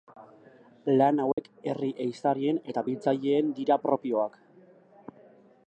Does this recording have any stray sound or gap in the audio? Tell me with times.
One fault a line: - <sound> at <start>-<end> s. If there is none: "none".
- dropout at 1.3-1.4 s